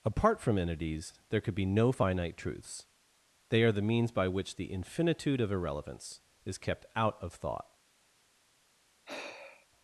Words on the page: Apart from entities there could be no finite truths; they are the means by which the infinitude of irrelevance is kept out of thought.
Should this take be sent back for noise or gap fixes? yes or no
yes